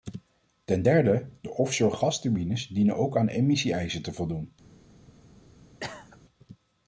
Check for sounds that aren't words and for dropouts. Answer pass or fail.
fail